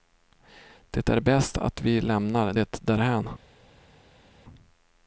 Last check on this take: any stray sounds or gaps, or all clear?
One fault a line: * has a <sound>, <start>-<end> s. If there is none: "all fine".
all fine